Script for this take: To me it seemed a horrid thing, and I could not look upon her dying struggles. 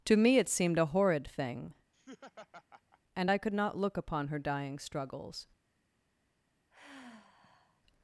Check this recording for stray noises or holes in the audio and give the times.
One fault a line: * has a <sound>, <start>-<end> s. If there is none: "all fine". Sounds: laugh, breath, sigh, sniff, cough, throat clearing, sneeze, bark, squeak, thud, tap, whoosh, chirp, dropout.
* has a laugh, 1.9-3.0 s
* has a sigh, 6.7-7.8 s